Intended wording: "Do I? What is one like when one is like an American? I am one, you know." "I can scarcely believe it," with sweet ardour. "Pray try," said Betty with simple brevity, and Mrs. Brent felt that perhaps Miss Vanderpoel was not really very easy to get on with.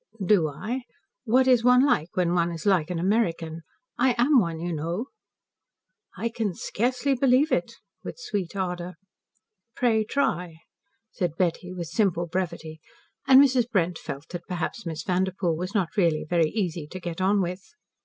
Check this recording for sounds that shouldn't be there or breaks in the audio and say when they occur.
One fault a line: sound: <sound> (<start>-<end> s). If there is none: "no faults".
no faults